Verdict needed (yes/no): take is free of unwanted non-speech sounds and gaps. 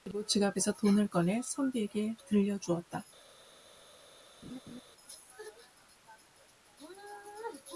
no